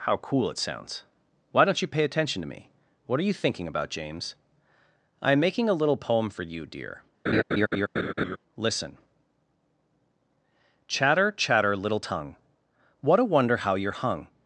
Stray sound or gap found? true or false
true